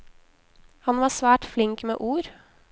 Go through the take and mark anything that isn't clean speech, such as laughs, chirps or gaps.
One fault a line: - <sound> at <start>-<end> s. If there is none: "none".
none